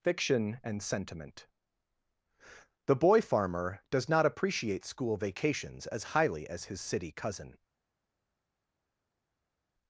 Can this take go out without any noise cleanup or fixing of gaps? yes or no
yes